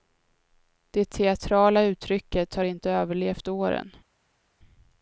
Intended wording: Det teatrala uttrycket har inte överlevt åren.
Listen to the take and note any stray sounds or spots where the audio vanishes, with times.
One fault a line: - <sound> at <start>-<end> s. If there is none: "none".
none